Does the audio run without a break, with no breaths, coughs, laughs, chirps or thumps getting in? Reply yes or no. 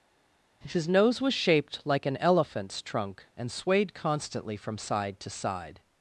yes